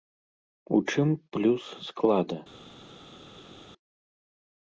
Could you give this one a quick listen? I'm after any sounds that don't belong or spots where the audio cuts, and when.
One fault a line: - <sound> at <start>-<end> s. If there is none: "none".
none